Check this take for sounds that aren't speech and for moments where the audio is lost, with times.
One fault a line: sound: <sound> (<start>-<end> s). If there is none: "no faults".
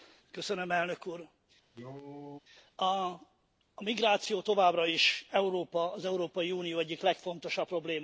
sound: cough (1.7-2.4 s)